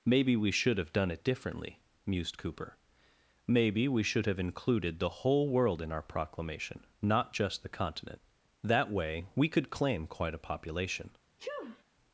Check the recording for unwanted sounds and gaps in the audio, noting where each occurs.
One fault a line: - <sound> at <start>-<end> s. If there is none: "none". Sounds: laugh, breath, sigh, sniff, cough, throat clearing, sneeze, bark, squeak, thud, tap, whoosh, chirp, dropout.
- sneeze at 11.4-11.8 s